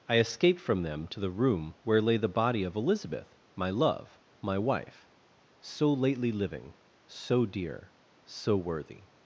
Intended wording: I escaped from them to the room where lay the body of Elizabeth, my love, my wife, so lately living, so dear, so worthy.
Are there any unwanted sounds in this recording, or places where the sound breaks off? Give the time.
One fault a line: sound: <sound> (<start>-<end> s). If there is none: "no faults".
no faults